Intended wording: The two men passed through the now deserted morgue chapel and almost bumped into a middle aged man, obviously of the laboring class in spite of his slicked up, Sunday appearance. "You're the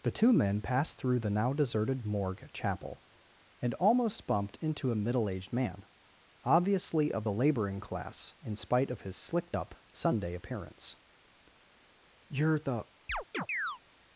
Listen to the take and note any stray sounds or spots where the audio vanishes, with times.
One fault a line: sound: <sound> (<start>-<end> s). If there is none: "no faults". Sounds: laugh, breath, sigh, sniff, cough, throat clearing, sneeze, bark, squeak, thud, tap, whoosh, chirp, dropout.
sound: chirp (13.1-13.8 s)